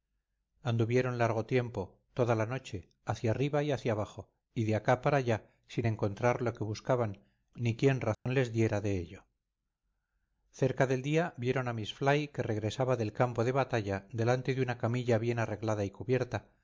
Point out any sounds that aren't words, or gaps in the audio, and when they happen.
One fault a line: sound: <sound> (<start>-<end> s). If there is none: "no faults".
sound: dropout (8.1-8.3 s)